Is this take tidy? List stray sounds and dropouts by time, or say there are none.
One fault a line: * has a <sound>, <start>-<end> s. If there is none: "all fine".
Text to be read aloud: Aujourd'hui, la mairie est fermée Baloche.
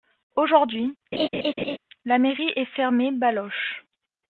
* has a laugh, 1.1-1.8 s